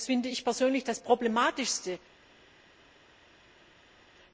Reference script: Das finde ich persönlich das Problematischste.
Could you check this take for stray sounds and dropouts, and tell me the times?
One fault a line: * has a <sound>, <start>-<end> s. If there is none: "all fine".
all fine